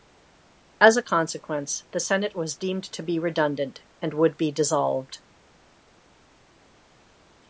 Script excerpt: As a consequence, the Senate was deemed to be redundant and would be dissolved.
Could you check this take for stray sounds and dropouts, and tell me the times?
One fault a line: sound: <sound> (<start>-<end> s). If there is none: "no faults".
no faults